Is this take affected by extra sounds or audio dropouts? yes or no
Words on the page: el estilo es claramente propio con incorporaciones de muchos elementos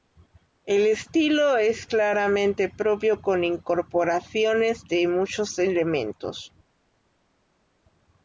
no